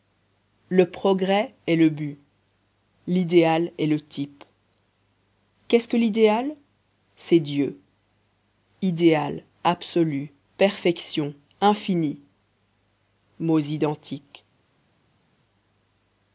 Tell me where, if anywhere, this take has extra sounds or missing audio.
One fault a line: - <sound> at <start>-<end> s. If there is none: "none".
none